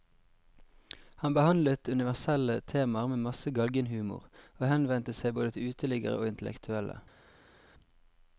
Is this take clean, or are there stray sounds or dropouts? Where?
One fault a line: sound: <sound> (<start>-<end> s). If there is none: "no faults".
no faults